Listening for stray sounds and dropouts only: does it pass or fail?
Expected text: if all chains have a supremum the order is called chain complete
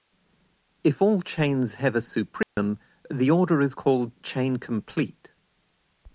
fail